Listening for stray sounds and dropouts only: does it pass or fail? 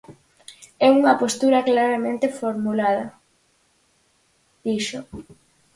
pass